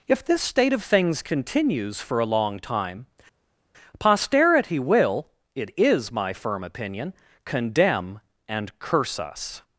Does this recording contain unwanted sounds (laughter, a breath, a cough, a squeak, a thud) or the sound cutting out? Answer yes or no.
no